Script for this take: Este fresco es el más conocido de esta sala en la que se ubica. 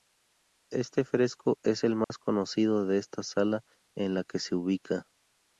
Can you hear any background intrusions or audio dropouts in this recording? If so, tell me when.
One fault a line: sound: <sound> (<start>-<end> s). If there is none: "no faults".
sound: dropout (2.0-2.1 s)